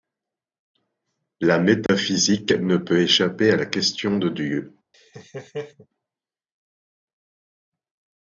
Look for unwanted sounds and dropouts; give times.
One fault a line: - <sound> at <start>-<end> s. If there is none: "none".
- dropout at 1.9-1.9 s
- laugh at 4.9-5.9 s